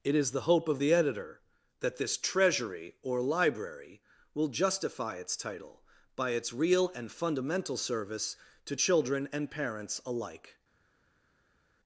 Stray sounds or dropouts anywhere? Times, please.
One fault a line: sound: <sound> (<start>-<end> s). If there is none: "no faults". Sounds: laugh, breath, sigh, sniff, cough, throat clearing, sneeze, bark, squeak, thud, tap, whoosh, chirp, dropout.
no faults